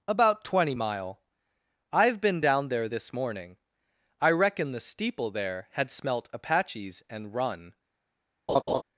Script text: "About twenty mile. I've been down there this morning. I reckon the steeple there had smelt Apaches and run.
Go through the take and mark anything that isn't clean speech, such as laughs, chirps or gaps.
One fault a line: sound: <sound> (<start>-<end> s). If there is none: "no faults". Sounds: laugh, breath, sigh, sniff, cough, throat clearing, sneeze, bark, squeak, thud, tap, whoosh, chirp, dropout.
sound: laugh (8.5-8.8 s)